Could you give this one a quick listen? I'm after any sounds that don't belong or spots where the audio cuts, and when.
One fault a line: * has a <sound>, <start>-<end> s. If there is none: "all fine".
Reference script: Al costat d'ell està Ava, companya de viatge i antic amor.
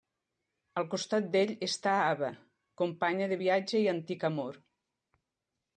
all fine